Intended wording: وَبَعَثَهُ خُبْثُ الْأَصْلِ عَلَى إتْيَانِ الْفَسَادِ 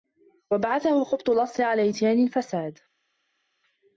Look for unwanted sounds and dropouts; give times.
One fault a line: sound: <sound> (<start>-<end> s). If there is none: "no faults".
no faults